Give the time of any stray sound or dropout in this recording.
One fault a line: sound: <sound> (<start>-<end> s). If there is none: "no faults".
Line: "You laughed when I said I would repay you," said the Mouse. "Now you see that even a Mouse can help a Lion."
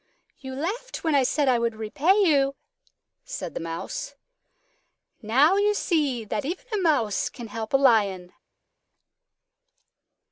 no faults